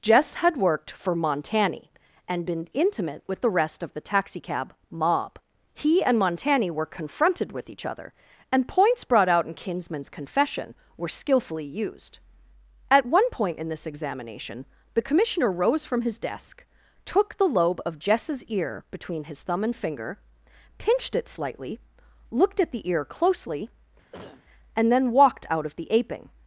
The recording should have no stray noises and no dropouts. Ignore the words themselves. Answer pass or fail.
fail